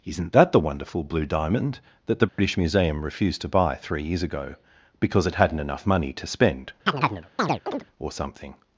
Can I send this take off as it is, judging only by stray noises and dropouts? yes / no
no